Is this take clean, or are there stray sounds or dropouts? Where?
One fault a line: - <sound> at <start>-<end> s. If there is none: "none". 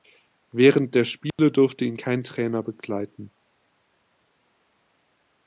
- dropout at 1.3-1.4 s